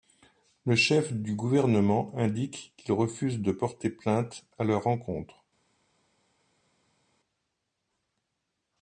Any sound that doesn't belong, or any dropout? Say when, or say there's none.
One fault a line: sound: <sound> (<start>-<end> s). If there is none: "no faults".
no faults